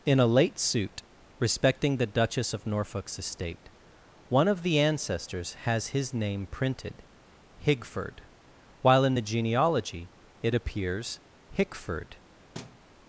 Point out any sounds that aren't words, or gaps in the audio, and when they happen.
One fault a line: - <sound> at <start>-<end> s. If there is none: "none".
- thud at 12.5-12.8 s